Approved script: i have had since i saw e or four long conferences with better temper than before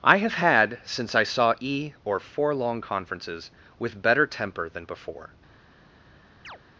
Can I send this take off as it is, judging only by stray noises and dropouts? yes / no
no